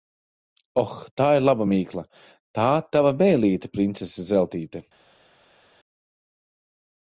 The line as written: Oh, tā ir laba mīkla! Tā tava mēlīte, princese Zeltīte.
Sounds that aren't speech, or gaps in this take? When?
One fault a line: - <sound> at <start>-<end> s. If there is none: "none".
none